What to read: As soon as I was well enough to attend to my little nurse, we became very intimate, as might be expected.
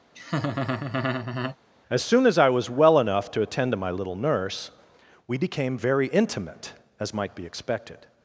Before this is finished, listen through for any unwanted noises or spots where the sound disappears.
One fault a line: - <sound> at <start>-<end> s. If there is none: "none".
- laugh at 0.1-1.6 s